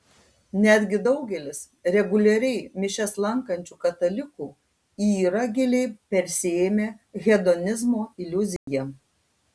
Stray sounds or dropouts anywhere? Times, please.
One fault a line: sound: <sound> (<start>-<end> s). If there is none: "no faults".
sound: dropout (8.6-8.7 s)